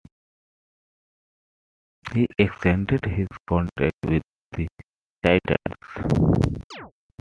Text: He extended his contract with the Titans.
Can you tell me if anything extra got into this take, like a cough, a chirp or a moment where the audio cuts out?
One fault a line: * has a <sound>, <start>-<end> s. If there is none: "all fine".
* has a chirp, 6.7-6.9 s